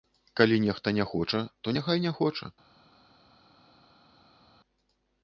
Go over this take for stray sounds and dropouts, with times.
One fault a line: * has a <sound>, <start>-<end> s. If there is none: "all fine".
all fine